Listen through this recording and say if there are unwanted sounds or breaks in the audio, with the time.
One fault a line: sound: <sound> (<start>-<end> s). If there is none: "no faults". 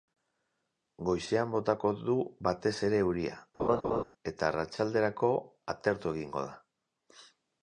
sound: laugh (3.6-4.0 s)